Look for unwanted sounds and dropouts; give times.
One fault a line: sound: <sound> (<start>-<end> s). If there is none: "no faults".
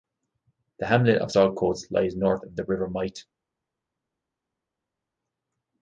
no faults